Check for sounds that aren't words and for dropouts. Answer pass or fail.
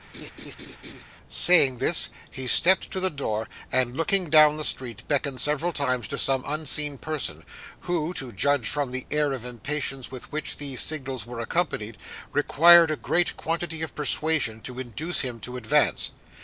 fail